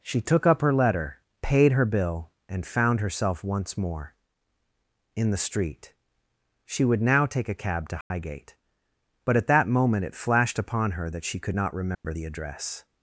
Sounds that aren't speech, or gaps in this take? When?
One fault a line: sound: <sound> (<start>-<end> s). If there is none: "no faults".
sound: dropout (8.0-8.1 s)
sound: dropout (11.9-12.0 s)